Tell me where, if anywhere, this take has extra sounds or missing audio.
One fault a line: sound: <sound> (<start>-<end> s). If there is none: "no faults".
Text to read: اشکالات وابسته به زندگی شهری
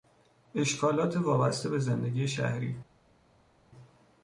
no faults